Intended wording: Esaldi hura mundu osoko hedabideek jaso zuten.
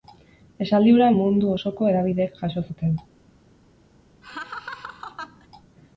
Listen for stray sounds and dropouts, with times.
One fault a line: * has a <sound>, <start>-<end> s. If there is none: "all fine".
* has a laugh, 4.2-5.5 s